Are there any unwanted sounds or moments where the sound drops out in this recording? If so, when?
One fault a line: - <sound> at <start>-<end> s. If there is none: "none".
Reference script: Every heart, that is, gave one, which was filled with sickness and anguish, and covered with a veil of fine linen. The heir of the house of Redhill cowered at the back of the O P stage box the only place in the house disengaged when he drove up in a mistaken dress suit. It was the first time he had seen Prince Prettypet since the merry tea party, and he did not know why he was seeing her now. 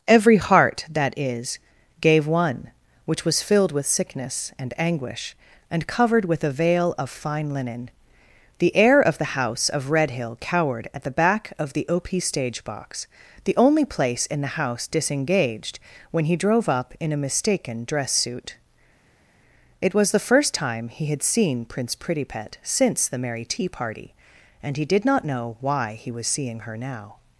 none